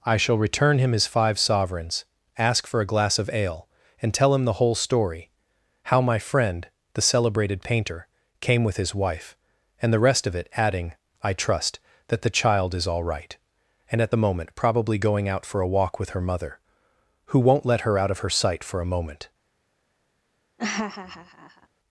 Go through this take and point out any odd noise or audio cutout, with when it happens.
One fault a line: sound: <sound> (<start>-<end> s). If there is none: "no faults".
sound: laugh (20.6-21.7 s)